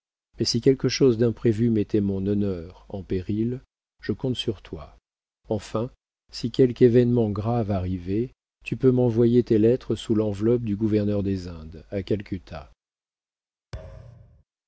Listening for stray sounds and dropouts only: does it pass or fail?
fail